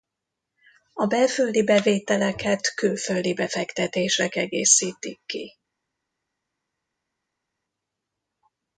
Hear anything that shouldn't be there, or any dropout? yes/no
no